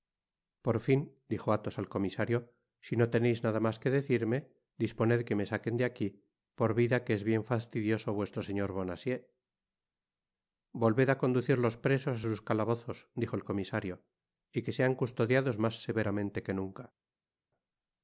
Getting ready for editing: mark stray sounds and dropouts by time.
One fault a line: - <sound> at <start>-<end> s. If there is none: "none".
none